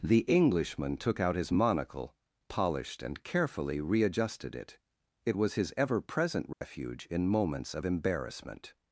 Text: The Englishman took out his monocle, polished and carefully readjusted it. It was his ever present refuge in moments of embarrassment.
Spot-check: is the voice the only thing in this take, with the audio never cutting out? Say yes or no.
no